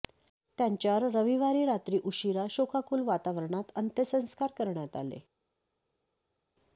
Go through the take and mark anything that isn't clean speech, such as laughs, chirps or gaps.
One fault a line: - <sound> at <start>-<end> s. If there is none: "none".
none